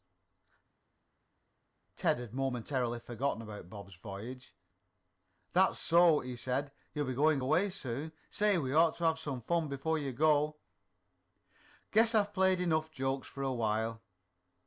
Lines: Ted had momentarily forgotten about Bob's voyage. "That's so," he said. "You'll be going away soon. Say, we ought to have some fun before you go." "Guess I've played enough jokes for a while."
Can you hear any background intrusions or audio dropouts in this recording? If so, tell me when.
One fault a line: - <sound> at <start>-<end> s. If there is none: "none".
none